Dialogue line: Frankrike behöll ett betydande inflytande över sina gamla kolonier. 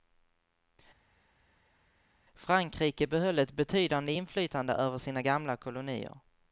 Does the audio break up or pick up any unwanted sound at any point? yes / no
no